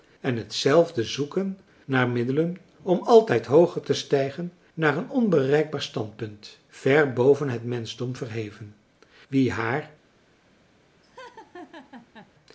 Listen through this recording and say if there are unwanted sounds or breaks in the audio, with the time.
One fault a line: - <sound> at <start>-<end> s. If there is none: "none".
- laugh at 11.0-12.3 s